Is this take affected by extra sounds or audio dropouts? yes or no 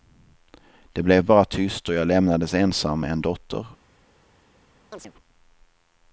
yes